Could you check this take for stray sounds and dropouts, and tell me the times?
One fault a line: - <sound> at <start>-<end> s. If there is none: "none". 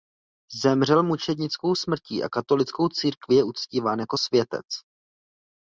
none